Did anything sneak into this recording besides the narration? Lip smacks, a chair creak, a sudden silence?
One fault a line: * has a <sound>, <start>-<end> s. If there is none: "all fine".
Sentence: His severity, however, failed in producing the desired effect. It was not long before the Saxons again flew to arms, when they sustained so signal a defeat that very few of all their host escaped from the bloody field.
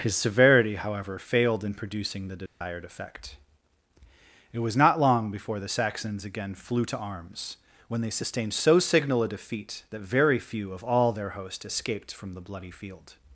* has a dropout, 2.5-2.6 s